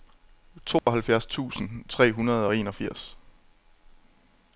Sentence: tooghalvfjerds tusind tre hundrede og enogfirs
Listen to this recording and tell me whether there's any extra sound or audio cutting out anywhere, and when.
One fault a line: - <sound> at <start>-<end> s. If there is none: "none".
- dropout at 0.8-0.9 s